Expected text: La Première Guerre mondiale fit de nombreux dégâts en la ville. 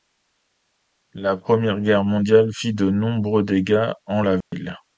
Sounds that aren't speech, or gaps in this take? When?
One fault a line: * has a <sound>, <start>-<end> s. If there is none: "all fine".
* has a dropout, 4.4-4.5 s